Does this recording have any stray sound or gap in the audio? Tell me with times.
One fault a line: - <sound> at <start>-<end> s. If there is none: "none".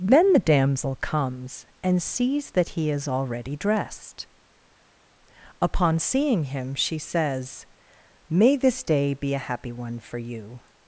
none